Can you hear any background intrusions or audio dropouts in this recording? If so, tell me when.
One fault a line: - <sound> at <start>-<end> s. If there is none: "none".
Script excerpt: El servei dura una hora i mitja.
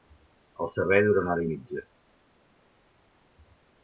none